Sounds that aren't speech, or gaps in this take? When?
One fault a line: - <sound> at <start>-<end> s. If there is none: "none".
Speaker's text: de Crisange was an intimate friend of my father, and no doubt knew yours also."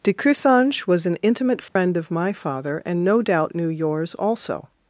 - dropout at 1.7-1.8 s